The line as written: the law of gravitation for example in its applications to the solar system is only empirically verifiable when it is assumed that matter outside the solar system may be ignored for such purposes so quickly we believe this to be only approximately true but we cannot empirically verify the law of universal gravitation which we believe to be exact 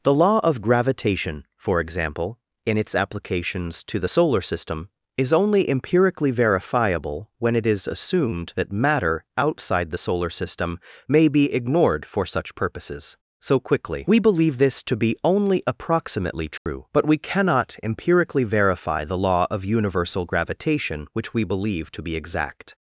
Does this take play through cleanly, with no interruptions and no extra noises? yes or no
no